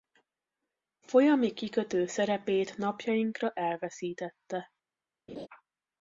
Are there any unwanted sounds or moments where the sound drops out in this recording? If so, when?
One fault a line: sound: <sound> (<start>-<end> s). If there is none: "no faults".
sound: laugh (5.3-5.5 s)